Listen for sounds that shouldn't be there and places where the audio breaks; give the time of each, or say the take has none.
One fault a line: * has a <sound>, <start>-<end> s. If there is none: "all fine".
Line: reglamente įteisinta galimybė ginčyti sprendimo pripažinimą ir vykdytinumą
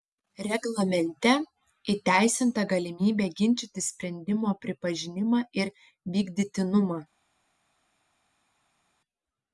all fine